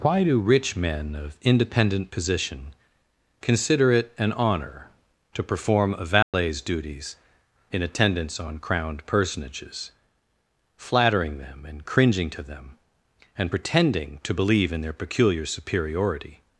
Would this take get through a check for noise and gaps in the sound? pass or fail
fail